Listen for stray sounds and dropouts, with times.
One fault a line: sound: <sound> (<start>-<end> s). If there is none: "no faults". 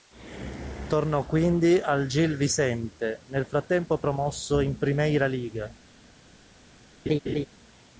sound: laugh (7.1-7.5 s)